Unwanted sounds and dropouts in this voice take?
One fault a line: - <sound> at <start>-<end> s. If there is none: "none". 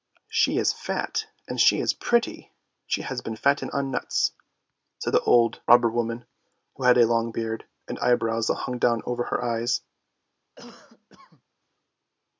- cough at 10.6-11.4 s